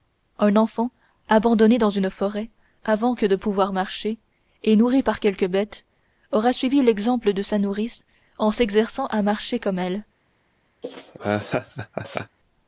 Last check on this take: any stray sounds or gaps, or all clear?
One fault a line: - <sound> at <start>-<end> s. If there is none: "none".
- laugh at 10.8-12.4 s